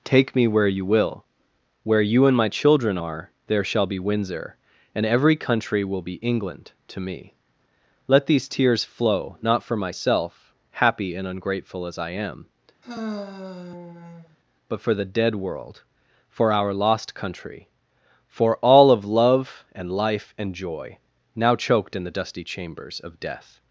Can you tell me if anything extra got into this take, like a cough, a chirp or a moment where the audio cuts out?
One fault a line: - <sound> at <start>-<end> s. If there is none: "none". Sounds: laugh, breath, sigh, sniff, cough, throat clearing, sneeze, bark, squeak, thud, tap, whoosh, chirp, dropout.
- sigh at 12.8-14.4 s